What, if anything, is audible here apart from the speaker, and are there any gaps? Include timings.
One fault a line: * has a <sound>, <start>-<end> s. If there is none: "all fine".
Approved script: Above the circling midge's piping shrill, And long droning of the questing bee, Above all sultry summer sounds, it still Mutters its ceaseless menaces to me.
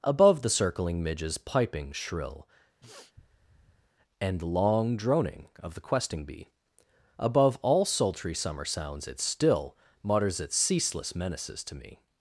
* has a sniff, 2.8-3.9 s